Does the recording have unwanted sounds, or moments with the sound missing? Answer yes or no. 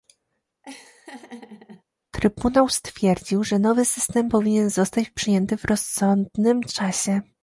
yes